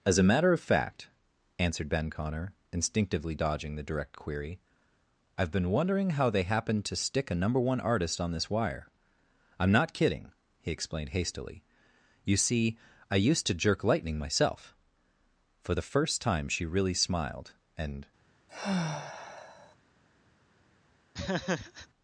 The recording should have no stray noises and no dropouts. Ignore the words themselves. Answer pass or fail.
fail